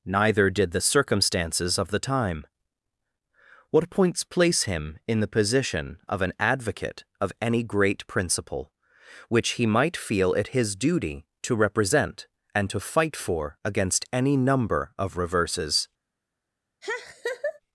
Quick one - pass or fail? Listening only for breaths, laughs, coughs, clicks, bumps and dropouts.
fail